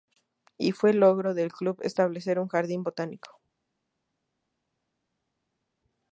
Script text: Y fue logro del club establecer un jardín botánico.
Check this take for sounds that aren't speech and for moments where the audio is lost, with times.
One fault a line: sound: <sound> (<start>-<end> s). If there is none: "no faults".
no faults